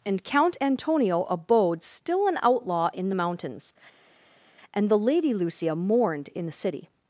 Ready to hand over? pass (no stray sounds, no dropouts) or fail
pass